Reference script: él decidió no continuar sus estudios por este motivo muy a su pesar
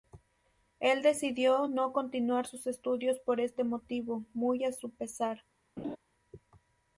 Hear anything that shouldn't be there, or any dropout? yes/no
yes